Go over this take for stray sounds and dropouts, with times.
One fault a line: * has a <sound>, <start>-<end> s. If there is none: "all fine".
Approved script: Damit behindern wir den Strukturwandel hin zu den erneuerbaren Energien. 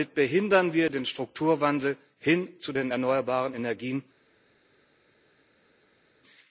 all fine